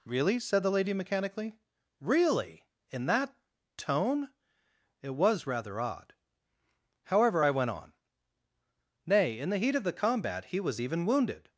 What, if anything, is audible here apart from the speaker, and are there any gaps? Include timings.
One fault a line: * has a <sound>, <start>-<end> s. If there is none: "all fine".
all fine